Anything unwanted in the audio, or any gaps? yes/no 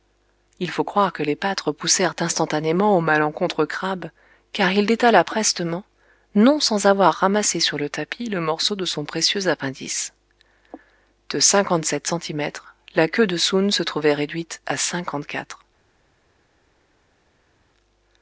no